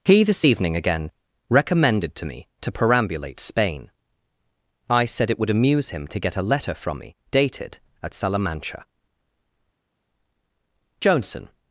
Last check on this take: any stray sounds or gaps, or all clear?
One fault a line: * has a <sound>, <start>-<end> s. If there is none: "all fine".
all fine